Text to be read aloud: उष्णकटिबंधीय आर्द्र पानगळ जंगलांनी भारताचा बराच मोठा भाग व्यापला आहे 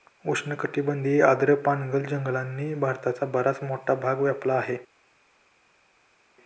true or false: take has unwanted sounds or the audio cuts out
false